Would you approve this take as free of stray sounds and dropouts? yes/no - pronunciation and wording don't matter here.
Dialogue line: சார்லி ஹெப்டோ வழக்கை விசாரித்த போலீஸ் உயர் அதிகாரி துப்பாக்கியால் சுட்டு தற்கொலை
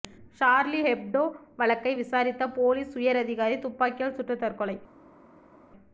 yes